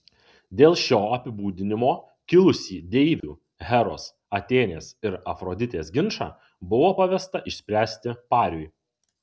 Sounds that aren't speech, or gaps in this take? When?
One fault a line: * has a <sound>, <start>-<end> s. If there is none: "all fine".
* has a dropout, 3.2-3.2 s